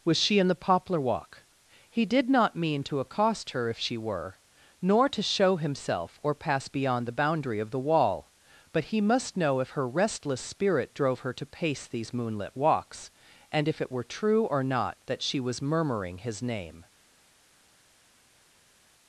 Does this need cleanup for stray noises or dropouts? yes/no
no